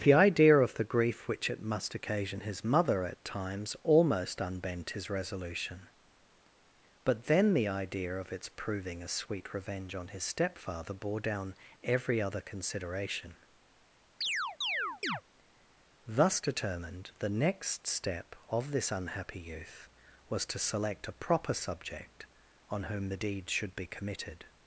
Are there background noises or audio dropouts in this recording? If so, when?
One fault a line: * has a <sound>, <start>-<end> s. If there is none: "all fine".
* has a chirp, 14.2-15.2 s